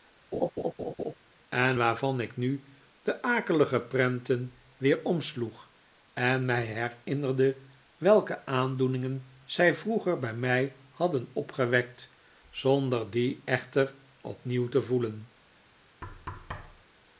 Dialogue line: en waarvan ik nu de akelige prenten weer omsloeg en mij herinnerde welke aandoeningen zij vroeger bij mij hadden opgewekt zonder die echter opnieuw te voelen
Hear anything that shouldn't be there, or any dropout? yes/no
yes